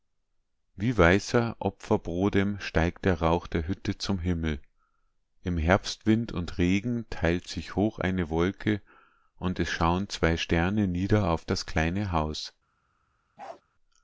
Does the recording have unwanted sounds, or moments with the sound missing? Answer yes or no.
yes